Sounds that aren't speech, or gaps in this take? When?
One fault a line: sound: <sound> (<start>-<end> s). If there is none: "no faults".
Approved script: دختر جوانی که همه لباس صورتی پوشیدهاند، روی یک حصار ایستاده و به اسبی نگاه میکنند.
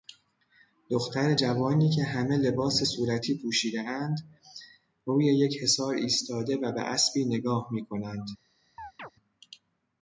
sound: chirp (8.8-9.1 s)